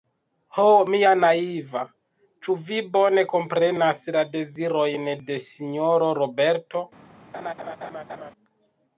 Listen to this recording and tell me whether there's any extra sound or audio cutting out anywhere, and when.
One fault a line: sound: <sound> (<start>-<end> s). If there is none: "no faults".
sound: laugh (7.3-8.3 s)